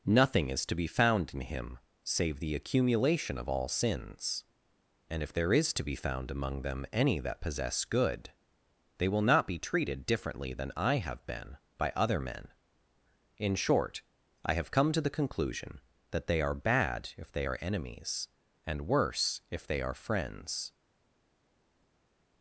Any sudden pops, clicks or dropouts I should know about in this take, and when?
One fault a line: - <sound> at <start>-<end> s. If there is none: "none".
none